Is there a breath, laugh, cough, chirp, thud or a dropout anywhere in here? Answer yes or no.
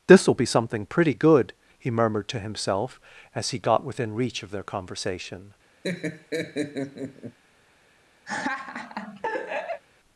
yes